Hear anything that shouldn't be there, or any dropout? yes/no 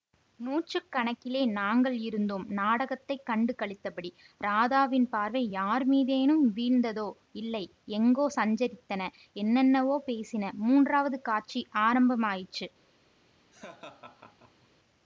yes